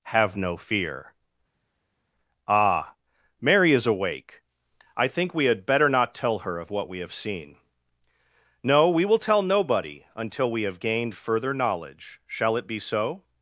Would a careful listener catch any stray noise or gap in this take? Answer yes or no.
no